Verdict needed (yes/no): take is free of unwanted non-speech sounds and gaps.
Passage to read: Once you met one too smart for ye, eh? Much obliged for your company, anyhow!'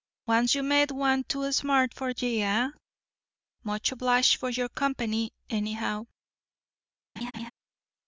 no